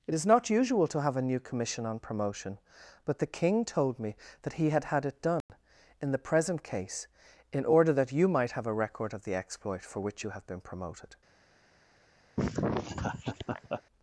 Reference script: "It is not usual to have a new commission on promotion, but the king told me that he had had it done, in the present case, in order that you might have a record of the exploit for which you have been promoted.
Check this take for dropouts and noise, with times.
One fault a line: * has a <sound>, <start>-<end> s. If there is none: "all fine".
* has a dropout, 5.4-5.5 s
* has a laugh, 12.4-13.8 s